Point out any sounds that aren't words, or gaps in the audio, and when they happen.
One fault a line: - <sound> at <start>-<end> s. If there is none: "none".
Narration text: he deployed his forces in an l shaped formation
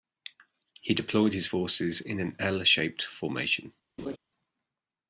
- laugh at 4.0-4.2 s